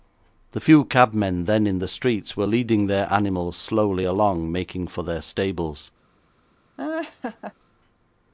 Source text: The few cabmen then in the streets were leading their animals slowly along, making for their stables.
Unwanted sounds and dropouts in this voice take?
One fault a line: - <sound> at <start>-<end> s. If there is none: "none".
- laugh at 6.8-7.5 s